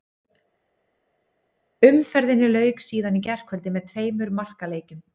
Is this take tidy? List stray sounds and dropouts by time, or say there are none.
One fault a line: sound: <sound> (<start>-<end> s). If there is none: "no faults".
no faults